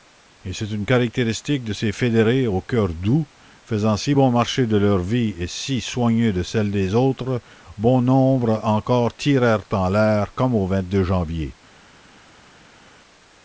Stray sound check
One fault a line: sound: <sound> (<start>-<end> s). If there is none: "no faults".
no faults